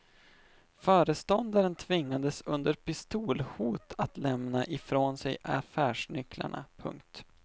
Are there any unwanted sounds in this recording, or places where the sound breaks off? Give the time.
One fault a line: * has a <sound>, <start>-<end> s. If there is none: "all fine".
all fine